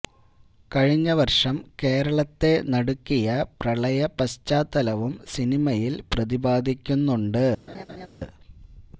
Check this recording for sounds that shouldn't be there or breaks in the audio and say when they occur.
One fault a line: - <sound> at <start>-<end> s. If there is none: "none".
- laugh at 7.7-8.1 s